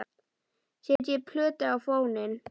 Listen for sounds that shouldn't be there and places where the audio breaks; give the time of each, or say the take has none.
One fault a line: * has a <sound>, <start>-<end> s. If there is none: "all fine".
* has a dropout, 1.0-1.0 s